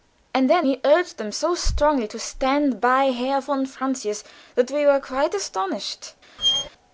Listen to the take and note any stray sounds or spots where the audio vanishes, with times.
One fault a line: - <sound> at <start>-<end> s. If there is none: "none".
- squeak at 6.4-6.7 s